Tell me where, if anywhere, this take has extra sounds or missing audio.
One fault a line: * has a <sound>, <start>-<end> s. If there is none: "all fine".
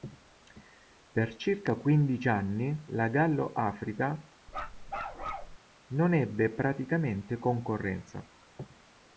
* has a bark, 4.5-5.6 s